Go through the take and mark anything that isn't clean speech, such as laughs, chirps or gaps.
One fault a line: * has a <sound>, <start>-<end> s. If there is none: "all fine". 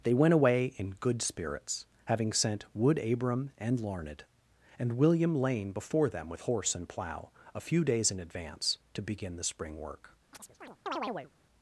* has a chirp, 10.3-11.3 s